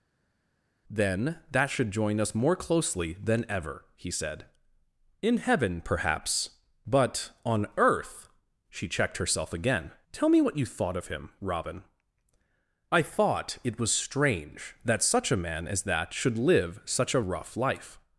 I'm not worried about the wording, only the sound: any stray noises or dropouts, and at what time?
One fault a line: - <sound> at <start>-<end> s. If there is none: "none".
none